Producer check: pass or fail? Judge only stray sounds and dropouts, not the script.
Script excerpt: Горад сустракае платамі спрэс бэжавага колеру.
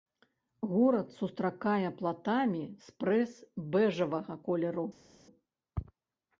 pass